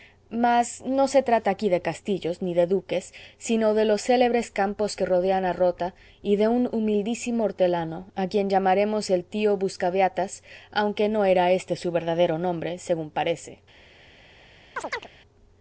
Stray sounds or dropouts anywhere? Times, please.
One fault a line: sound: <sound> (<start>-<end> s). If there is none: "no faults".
sound: chirp (14.8-15.1 s)